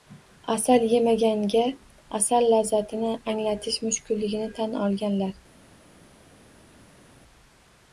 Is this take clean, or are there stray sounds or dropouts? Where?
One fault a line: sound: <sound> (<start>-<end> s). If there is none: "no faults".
no faults